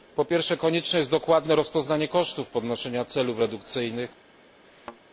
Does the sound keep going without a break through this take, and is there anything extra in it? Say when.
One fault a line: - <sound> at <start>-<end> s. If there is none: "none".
- thud at 4.6-5.0 s